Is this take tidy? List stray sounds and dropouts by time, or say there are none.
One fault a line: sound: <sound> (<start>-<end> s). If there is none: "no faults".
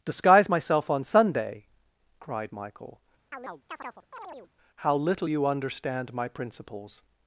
sound: chirp (3.3-4.5 s)